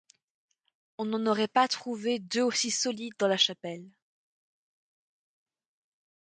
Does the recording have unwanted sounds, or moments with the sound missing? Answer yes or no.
no